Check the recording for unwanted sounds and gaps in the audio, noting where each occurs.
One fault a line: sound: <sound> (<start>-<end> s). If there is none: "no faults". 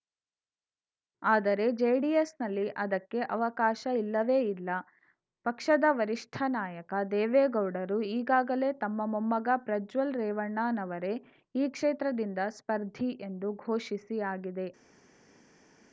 no faults